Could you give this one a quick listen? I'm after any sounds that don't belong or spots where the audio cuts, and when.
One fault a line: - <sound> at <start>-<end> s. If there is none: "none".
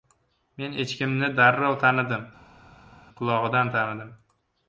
none